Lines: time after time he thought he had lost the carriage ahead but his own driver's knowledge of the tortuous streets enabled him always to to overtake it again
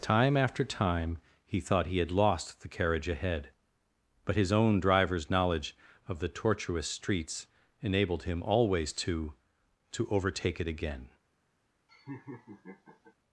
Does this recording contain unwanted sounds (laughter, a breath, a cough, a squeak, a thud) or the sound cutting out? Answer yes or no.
yes